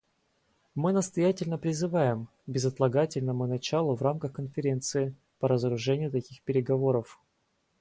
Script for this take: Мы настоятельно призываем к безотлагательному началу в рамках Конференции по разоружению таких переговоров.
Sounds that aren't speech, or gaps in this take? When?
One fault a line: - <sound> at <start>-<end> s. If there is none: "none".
none